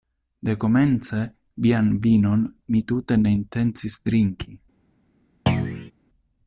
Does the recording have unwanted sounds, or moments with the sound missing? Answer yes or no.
yes